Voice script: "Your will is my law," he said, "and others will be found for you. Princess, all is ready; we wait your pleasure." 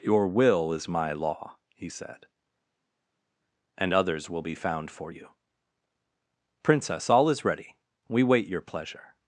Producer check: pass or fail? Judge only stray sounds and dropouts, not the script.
pass